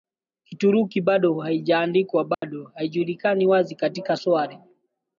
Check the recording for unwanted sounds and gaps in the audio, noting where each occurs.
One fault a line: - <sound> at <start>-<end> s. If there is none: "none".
- dropout at 2.3-2.4 s